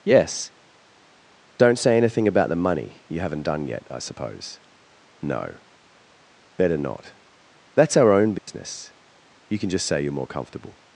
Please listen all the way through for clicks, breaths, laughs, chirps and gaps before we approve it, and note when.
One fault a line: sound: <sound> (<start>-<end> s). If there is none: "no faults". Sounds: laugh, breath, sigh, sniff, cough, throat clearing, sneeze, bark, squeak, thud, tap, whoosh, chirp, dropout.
sound: dropout (8.4-8.5 s)